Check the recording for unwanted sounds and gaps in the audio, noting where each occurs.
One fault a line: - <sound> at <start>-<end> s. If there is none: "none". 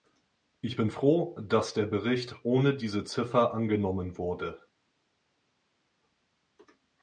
none